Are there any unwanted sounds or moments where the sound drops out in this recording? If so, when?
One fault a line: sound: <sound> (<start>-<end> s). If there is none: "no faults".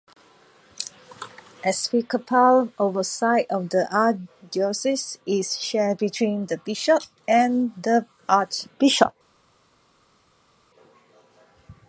no faults